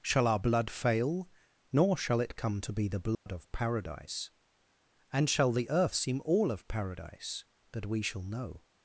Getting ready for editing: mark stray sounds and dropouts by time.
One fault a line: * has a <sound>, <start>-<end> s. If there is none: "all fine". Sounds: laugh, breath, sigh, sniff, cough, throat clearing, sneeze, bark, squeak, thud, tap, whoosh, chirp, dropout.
* has a dropout, 3.1-3.3 s